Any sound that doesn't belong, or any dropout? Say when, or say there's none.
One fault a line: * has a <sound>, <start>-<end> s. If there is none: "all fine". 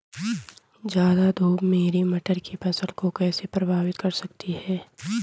all fine